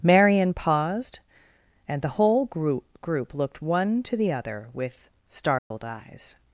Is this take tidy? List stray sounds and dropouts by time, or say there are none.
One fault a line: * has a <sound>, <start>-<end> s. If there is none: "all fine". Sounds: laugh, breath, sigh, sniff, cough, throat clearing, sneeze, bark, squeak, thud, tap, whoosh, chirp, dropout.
* has a dropout, 5.6-5.7 s